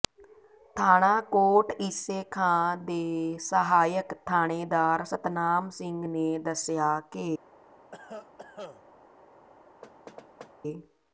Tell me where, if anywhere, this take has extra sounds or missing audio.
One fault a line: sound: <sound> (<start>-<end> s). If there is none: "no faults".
sound: cough (7.9-8.8 s)
sound: thud (9.8-10.5 s)